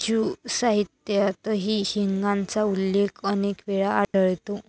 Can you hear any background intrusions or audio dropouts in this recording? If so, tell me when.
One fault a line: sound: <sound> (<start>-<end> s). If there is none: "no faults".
sound: dropout (4.0-4.1 s)